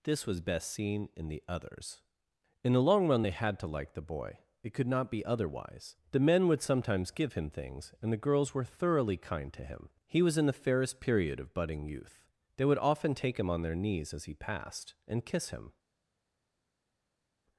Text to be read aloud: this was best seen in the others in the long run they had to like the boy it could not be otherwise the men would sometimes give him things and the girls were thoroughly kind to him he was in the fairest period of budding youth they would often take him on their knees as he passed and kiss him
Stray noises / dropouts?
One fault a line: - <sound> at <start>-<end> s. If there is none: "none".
none